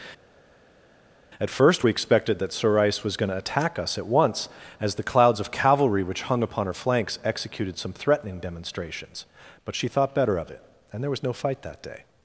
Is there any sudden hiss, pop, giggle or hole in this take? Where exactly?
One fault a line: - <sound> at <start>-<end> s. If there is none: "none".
none